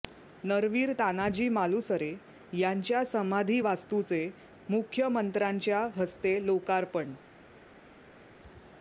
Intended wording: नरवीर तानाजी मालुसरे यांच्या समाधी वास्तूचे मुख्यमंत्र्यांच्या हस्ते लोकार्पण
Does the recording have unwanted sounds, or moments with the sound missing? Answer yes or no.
no